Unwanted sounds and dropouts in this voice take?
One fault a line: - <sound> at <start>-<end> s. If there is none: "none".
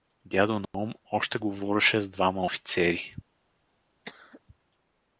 - dropout at 0.7-0.7 s
- cough at 4.1-4.4 s